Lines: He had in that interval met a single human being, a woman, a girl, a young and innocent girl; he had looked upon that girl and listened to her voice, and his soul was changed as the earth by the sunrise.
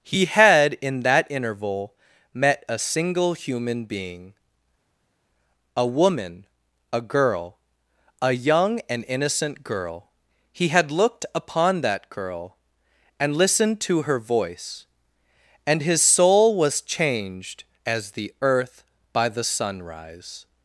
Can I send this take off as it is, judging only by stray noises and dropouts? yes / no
yes